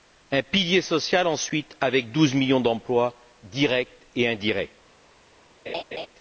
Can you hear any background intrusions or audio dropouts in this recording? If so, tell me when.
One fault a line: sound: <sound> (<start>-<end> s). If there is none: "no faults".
sound: laugh (5.7-6.1 s)